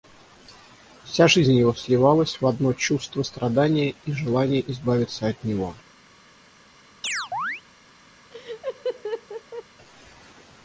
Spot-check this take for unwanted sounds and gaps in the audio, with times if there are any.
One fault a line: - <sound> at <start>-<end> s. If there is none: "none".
- chirp at 7.0-7.6 s
- laugh at 8.3-9.6 s